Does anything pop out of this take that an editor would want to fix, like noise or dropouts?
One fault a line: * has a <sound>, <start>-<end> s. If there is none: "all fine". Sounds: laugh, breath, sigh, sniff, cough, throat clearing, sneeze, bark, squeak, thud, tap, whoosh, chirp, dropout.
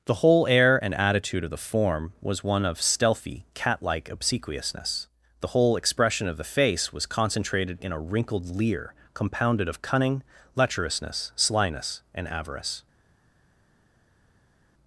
all fine